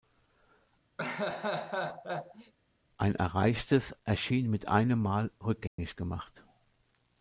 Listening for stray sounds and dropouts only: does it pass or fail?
fail